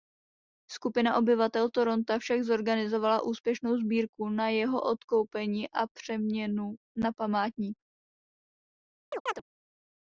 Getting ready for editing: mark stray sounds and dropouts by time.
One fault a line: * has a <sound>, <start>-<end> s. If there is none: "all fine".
* has a chirp, 9.1-9.4 s